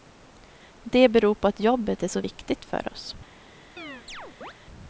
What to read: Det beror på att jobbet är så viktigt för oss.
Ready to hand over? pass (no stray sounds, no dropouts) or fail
fail